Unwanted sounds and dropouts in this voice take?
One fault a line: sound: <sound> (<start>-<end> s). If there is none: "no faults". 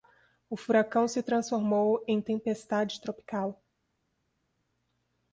no faults